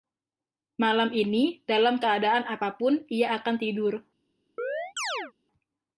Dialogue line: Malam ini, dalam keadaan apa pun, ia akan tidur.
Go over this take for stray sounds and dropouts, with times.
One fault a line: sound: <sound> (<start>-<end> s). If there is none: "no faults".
sound: chirp (4.6-5.3 s)